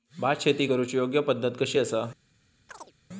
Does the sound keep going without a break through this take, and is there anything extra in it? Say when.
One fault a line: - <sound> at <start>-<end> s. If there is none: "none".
- chirp at 2.7-2.9 s